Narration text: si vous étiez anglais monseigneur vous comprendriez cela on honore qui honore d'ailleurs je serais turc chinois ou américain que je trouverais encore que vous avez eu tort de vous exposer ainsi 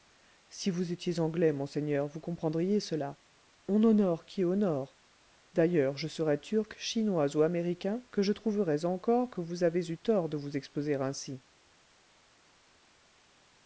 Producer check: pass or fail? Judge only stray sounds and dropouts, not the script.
pass